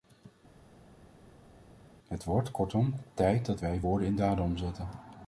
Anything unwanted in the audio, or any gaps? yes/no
no